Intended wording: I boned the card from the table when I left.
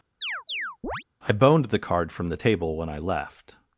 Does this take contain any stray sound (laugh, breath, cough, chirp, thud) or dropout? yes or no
yes